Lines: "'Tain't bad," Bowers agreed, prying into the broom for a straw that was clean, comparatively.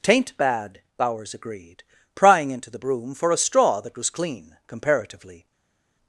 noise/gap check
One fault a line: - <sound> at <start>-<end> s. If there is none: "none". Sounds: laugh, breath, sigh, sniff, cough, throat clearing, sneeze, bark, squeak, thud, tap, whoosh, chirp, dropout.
none